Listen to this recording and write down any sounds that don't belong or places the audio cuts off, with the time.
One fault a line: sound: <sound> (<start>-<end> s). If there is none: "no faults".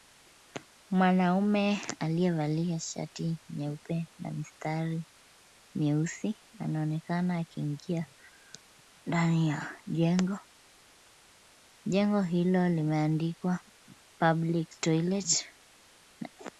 no faults